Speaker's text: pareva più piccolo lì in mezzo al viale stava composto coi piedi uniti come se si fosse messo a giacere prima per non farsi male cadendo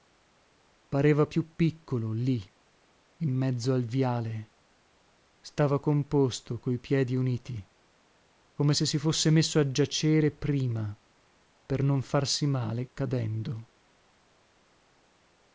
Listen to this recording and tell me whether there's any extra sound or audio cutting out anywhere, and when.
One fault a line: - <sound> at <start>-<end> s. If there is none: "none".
none